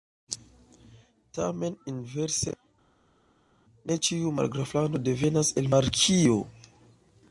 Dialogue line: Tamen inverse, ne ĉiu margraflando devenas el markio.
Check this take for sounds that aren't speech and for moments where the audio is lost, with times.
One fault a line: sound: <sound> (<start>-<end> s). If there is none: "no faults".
no faults